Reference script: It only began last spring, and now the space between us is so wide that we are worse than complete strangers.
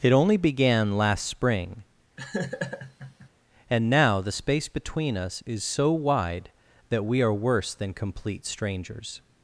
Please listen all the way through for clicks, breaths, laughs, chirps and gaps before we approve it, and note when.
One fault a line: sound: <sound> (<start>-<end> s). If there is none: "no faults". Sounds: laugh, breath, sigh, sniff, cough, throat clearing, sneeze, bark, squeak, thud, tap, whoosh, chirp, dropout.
sound: laugh (2.2-3.3 s)